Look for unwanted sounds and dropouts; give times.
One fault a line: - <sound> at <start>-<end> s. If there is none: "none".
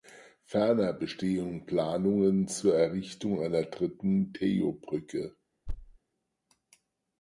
- thud at 5.7-6.0 s